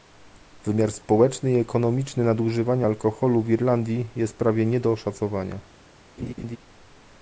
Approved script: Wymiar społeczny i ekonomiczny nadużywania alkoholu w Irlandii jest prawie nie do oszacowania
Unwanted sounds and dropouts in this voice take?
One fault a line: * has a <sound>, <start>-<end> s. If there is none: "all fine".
* has a laugh, 6.2-6.6 s